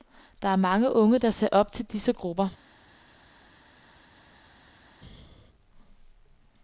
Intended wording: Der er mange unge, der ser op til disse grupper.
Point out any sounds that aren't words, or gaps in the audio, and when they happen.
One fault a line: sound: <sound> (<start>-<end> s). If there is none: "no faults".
no faults